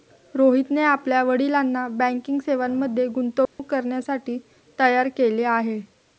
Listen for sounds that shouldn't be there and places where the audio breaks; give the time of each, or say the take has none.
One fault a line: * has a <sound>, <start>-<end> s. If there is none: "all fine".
* has a dropout, 3.5-3.6 s